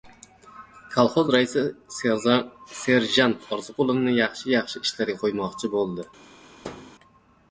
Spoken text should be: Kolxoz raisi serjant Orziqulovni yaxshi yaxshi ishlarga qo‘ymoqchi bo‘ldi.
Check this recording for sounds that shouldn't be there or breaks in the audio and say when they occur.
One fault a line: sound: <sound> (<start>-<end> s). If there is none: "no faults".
sound: thud (6.6-7.0 s)